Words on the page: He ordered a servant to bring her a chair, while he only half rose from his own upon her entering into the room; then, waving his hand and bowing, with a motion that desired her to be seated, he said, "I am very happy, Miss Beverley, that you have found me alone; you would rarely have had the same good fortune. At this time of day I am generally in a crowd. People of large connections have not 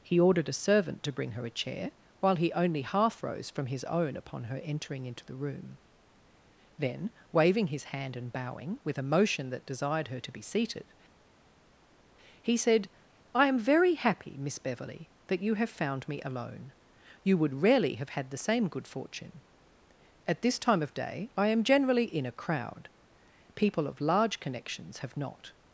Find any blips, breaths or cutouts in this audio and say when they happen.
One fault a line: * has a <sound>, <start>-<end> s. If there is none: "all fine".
all fine